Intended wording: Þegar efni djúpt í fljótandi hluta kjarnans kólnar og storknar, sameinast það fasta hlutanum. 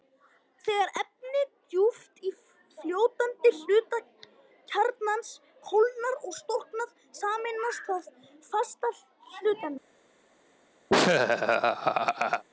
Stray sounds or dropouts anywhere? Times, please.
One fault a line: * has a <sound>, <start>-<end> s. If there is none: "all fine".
* has a laugh, 10.9-12.4 s